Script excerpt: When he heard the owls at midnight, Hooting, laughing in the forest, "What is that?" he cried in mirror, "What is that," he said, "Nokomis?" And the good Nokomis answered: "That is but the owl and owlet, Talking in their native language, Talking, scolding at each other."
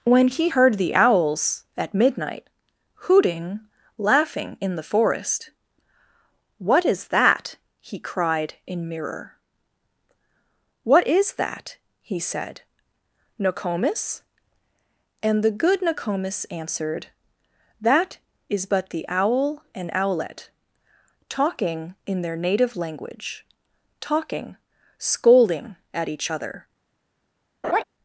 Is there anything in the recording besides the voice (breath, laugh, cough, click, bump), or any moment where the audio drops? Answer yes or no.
yes